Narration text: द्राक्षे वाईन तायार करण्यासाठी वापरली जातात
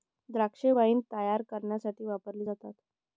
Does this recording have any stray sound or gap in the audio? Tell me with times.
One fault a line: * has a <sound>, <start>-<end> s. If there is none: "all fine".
all fine